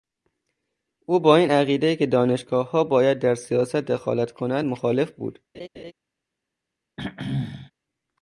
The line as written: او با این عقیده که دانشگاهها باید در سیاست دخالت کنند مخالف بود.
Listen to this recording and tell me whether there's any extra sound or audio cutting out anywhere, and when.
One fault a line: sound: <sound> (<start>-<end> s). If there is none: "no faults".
sound: laugh (5.5-5.9 s)
sound: throat clearing (7.0-7.7 s)